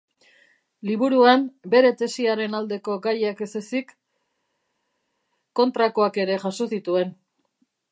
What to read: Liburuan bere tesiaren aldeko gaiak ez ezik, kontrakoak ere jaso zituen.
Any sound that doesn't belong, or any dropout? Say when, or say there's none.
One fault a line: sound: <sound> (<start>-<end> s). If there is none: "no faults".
no faults